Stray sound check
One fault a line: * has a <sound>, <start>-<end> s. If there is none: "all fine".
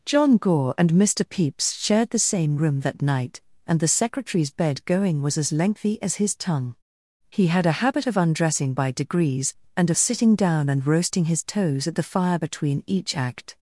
all fine